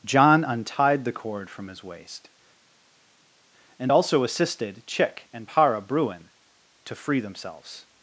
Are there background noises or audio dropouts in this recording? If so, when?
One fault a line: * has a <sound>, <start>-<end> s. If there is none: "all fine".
all fine